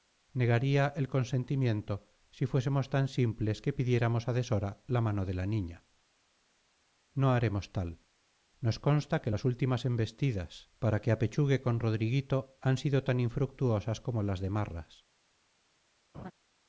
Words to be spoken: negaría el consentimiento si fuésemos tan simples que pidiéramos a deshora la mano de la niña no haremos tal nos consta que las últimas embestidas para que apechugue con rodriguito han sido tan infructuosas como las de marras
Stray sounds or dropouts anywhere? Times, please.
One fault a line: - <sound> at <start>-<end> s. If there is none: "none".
- laugh at 16.1-16.3 s